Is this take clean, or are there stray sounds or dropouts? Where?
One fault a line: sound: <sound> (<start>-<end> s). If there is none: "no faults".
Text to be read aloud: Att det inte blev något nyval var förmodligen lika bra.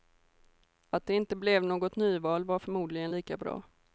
no faults